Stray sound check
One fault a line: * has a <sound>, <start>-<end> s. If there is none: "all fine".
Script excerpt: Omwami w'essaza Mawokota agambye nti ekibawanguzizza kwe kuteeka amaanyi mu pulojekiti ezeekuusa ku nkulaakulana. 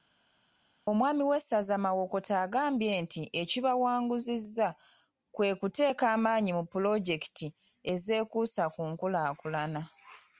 all fine